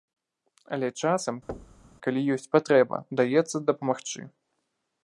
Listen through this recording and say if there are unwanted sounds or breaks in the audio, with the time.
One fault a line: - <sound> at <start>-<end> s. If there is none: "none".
- thud at 1.5-1.9 s